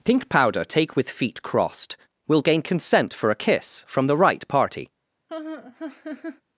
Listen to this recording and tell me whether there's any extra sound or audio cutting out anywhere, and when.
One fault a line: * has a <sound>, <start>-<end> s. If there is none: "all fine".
* has a laugh, 5.3-6.4 s